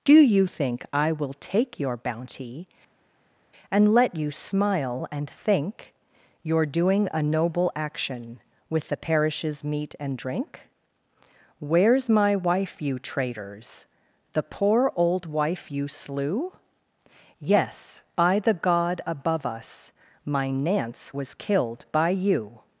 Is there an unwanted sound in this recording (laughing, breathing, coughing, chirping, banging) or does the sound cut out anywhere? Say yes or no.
no